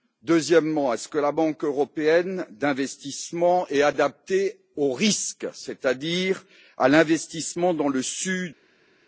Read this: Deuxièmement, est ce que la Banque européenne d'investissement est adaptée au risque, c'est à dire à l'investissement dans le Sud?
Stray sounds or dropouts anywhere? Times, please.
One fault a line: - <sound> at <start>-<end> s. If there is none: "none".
none